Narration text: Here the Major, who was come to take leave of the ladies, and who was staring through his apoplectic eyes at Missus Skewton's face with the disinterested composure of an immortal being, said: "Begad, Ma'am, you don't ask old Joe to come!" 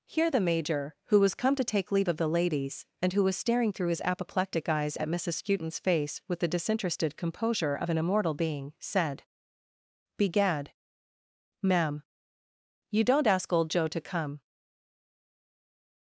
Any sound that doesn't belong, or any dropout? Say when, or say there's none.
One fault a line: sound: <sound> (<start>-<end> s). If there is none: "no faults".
no faults